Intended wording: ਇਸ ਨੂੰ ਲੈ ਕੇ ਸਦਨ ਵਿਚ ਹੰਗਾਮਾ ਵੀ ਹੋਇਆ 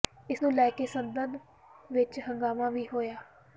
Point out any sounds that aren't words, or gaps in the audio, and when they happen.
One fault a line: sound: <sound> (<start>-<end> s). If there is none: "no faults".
no faults